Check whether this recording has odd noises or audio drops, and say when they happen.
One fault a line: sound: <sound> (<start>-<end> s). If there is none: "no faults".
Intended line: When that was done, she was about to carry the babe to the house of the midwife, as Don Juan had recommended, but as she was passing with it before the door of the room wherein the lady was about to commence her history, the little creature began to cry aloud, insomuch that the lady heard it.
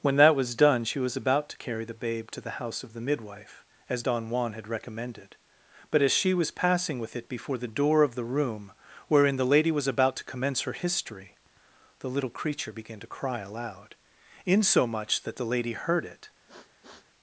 sound: sniff (16.5-17.1 s)